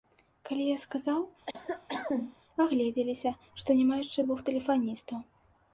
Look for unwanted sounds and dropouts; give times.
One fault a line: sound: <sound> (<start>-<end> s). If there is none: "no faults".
sound: cough (1.5-2.4 s)